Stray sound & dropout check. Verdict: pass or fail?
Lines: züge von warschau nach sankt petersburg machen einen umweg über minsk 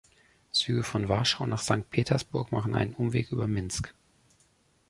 pass